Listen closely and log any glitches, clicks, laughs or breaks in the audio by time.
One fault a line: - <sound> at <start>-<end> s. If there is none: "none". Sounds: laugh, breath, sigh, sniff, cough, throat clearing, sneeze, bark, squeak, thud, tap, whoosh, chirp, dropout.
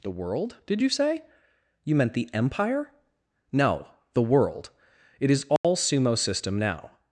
- dropout at 5.6-5.6 s